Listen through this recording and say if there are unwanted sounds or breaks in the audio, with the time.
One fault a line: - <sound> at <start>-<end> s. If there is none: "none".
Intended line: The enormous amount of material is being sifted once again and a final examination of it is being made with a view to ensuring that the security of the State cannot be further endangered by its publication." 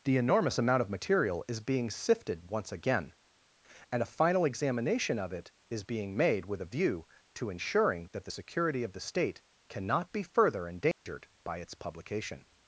- dropout at 10.9-11.1 s